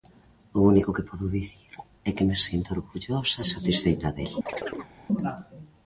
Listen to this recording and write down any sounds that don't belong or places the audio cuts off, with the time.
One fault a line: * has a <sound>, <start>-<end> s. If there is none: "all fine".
* has a chirp, 4.5-4.9 s